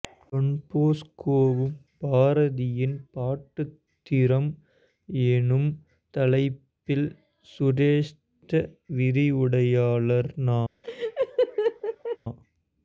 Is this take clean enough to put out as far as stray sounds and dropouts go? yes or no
no